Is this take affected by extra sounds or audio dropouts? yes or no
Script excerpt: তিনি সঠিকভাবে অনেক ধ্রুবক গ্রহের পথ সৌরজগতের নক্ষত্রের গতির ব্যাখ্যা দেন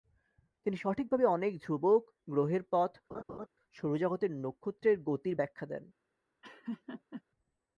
yes